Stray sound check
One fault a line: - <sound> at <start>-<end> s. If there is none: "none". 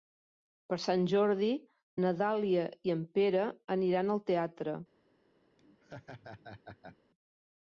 - laugh at 5.6-7.0 s